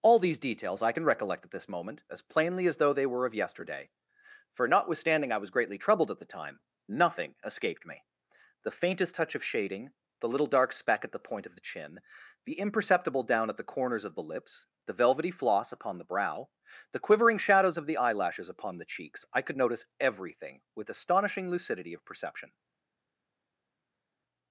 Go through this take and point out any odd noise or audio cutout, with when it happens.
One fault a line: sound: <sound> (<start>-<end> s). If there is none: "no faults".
no faults